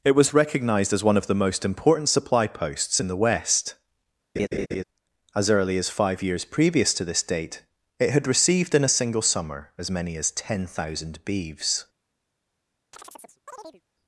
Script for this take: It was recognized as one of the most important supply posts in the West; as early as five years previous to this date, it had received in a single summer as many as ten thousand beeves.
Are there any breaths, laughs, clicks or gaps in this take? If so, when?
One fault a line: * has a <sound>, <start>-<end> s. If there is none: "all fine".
* has a laugh, 4.4-4.8 s
* has a chirp, 12.9-13.8 s